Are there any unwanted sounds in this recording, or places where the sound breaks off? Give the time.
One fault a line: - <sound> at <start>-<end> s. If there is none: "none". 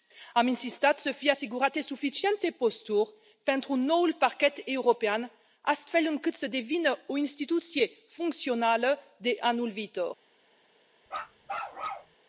- bark at 11.1-12.1 s